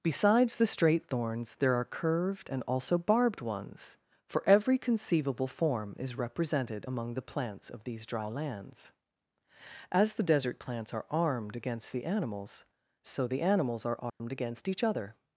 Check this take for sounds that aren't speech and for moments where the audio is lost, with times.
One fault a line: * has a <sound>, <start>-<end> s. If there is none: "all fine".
* has a dropout, 14.1-14.2 s